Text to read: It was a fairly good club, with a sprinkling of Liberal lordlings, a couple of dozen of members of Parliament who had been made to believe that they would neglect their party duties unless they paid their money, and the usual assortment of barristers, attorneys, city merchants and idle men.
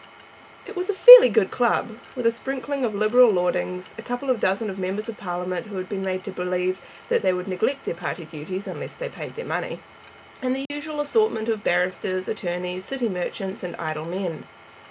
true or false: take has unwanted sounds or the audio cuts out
true